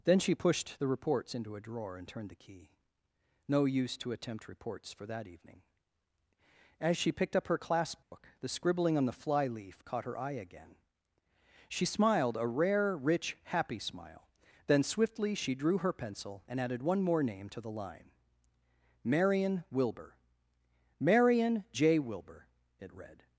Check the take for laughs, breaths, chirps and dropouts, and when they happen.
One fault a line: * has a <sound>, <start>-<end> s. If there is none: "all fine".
* has a dropout, 8.0-8.1 s